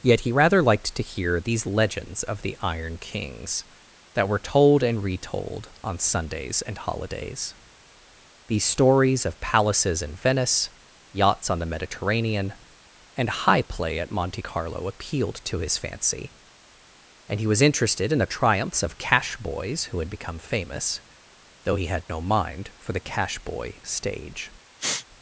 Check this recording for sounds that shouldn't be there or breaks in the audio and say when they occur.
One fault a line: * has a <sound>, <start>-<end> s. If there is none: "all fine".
* has a sniff, 24.8-25.1 s